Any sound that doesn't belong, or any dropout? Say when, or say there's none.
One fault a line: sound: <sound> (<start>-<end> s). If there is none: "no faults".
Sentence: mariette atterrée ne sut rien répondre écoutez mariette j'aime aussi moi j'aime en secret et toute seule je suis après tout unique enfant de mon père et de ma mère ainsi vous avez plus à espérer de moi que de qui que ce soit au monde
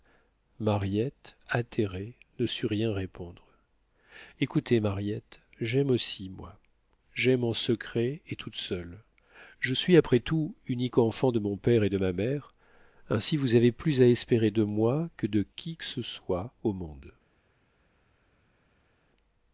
no faults